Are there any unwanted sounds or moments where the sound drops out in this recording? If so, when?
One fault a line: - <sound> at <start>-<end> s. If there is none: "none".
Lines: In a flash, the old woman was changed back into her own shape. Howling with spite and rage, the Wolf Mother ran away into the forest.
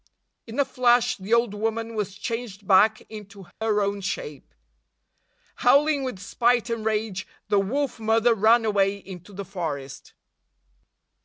- dropout at 3.5-3.6 s